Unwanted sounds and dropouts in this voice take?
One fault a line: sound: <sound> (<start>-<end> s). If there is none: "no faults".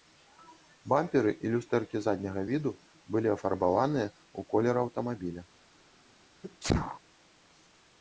sound: sneeze (6.4-7.0 s)